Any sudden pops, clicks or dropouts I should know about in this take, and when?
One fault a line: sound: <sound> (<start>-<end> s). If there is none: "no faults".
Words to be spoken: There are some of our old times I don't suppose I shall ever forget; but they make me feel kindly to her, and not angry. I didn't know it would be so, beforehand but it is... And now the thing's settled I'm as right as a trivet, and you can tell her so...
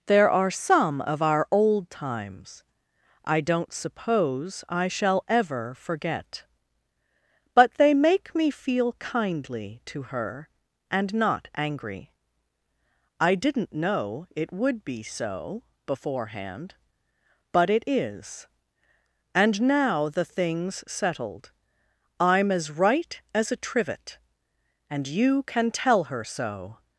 no faults